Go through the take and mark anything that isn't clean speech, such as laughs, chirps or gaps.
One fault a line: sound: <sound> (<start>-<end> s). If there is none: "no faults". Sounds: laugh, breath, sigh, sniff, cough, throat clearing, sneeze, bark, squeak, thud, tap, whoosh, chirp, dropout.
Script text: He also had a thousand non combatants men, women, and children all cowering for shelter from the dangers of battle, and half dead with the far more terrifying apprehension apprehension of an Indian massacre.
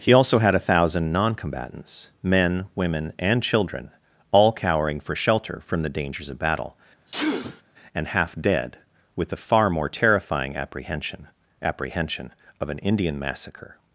sound: sneeze (7.1-7.6 s)